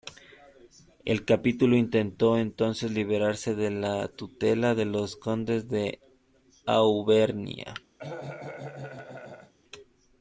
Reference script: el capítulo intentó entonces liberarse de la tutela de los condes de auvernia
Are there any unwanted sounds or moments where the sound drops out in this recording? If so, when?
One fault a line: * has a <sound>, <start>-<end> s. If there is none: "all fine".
* has a cough, 8.0-9.5 s